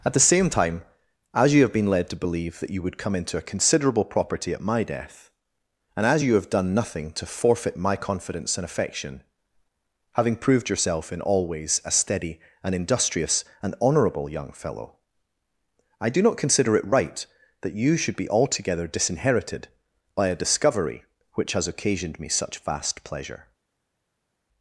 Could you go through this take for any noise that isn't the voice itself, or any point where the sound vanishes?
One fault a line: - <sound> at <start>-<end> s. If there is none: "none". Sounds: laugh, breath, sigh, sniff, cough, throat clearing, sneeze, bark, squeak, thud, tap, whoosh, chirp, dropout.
none